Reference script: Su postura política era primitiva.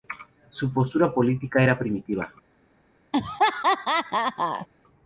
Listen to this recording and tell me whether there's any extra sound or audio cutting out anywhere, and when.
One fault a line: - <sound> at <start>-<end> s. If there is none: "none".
- laugh at 3.1-4.7 s